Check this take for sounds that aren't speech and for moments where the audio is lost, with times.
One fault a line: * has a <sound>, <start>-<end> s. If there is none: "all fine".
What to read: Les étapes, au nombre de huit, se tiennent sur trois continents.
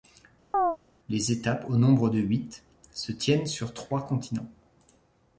* has a chirp, 0.5-0.8 s